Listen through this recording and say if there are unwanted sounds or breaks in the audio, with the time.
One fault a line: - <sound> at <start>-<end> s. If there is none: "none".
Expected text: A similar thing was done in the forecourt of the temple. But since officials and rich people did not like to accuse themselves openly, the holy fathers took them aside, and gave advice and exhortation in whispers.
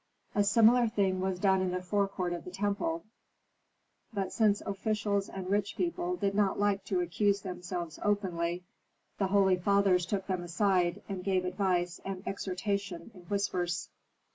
none